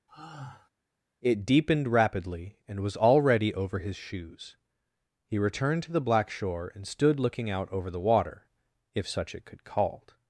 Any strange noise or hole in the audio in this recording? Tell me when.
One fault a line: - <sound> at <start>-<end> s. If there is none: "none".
- sigh at 0.1-0.7 s